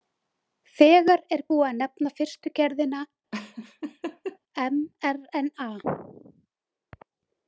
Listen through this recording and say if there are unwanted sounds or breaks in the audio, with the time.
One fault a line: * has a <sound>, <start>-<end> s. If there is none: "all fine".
* has a laugh, 3.3-4.4 s